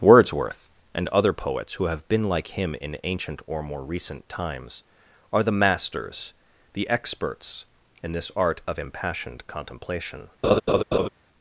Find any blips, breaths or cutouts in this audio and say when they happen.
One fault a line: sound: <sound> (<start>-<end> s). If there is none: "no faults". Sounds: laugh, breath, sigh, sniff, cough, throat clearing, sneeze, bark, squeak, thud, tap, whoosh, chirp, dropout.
sound: laugh (10.4-11.1 s)